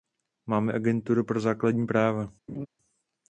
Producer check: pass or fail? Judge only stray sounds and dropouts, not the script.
fail